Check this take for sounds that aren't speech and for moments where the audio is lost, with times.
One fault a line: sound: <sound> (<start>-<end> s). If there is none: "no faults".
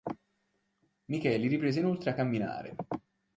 no faults